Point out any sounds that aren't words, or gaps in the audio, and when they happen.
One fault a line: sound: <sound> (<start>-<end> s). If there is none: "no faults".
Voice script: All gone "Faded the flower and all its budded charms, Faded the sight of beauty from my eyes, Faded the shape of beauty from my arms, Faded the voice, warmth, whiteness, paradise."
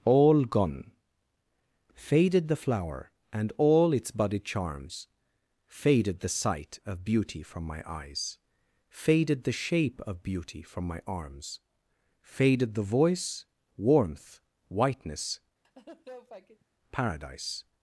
sound: laugh (15.6-16.7 s)